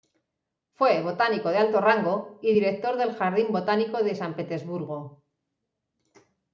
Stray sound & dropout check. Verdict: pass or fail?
pass